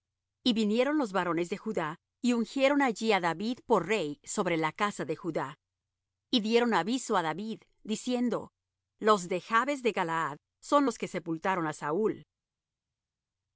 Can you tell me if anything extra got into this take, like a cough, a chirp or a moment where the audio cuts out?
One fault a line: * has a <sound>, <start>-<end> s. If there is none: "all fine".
all fine